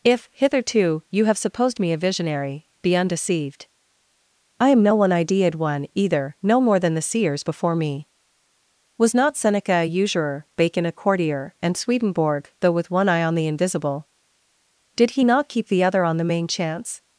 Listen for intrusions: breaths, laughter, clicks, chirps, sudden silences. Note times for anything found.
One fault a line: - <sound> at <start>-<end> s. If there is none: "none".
none